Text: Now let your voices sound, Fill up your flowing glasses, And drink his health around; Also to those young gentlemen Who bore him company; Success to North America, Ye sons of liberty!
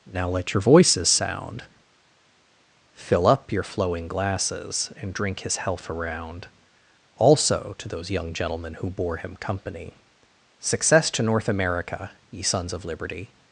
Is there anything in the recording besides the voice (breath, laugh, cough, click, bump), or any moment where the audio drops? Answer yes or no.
no